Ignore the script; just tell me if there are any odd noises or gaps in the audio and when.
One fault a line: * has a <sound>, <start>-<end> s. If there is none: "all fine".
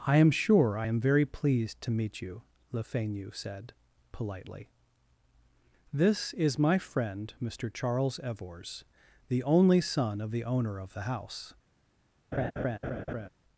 * has a laugh, 12.3-13.3 s